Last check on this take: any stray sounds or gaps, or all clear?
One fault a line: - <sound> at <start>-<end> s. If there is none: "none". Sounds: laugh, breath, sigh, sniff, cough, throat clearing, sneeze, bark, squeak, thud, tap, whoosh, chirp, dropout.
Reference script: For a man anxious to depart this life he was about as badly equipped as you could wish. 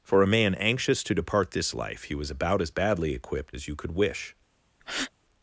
- breath at 4.8-5.1 s